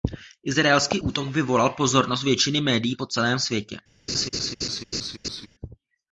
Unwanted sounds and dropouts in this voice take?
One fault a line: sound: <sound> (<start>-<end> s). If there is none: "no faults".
sound: laugh (4.1-5.5 s)